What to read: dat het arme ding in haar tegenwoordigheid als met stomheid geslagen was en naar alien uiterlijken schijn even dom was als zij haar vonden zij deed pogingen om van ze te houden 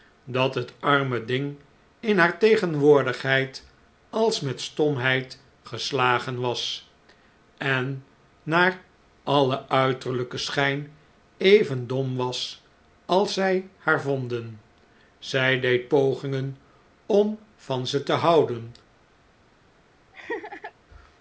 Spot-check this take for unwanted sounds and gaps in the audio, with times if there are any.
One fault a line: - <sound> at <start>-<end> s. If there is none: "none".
- laugh at 20.1-20.7 s